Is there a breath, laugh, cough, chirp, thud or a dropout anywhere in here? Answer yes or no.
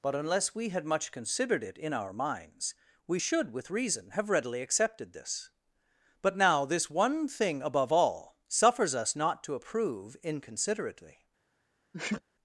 yes